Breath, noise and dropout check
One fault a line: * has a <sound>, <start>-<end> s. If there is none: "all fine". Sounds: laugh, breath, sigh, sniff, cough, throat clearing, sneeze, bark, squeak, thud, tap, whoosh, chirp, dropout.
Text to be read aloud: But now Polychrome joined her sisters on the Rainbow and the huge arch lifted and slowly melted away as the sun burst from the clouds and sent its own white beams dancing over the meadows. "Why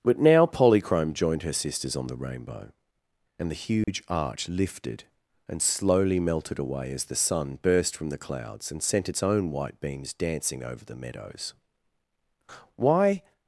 * has a dropout, 3.8-3.9 s